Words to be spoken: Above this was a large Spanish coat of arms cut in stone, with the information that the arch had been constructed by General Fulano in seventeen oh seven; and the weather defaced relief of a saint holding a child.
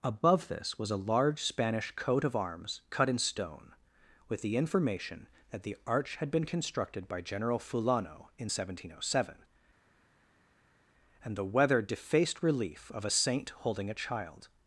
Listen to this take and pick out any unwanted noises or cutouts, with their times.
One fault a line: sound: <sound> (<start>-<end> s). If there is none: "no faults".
no faults